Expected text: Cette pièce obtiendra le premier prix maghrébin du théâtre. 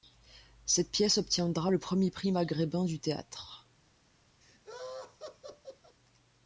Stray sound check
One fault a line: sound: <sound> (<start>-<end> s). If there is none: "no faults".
sound: laugh (4.4-6.0 s)